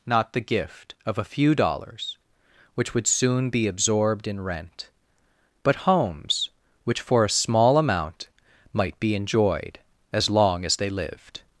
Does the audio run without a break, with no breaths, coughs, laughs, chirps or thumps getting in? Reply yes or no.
yes